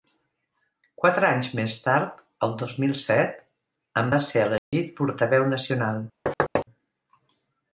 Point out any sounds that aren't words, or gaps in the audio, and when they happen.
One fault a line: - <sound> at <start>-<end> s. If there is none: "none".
- dropout at 4.6-4.7 s
- thud at 6.3-6.7 s